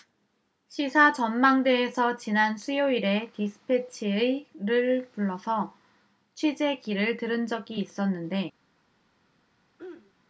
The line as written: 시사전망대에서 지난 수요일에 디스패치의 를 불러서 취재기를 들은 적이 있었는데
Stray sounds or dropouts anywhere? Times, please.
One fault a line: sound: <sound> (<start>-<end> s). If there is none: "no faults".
sound: throat clearing (9.8-10.1 s)